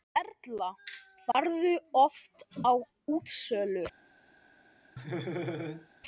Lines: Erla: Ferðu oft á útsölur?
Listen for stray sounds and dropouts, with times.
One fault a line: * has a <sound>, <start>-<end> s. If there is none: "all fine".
* has a dropout, 1.3-1.3 s
* has a laugh, 5.0-5.9 s